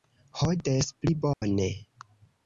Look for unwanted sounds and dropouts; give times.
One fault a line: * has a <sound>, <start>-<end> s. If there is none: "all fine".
* has a dropout, 1.3-1.4 s